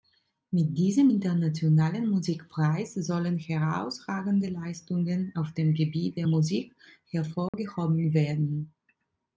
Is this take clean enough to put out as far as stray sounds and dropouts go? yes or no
no